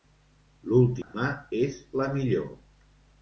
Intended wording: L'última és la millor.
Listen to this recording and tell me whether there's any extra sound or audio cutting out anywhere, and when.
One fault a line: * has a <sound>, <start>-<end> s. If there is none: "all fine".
* has a dropout, 1.0-1.1 s